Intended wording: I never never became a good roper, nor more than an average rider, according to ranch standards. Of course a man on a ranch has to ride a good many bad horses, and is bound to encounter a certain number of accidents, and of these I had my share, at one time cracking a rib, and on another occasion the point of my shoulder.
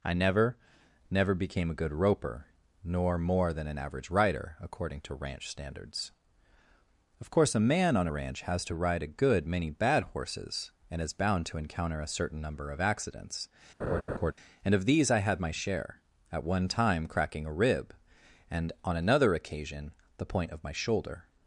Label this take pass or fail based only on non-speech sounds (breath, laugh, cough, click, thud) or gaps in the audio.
fail